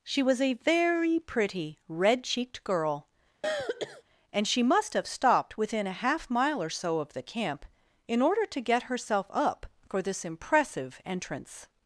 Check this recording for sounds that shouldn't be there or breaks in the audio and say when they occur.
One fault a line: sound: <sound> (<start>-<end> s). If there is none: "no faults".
sound: throat clearing (3.4-4.0 s)